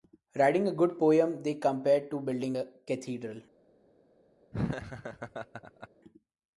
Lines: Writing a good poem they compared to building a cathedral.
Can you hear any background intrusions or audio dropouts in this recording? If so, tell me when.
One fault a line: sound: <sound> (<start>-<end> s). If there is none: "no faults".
sound: laugh (4.5-5.9 s)